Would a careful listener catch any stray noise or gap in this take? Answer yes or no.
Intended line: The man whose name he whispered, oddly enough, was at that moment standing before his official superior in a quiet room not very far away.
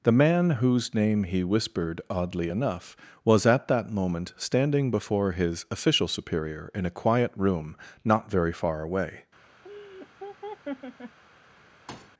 yes